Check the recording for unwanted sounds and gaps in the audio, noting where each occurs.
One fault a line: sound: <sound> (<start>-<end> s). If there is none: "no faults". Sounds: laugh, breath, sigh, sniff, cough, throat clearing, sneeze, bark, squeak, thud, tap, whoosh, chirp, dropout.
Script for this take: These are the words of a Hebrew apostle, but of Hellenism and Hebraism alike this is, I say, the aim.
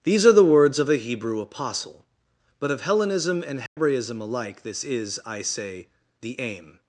sound: dropout (3.7-3.8 s)